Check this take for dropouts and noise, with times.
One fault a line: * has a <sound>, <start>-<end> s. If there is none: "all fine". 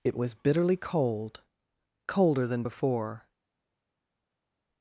all fine